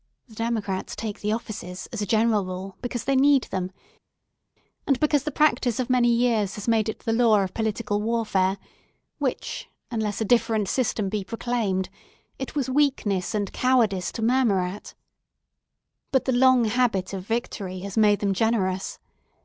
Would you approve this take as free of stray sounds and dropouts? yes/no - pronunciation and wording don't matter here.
yes